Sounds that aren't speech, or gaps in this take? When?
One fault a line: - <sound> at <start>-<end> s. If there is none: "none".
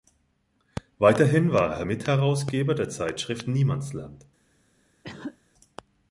- cough at 5.0-5.4 s